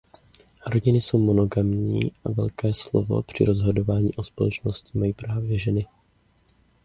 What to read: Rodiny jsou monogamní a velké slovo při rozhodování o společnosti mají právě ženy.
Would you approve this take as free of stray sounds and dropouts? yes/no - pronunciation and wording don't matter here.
yes